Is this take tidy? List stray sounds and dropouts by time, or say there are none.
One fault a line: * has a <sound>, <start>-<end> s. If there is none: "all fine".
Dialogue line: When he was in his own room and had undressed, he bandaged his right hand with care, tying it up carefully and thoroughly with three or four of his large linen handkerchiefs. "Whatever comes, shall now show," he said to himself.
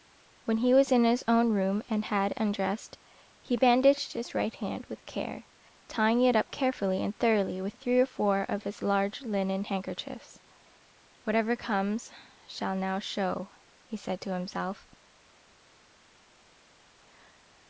all fine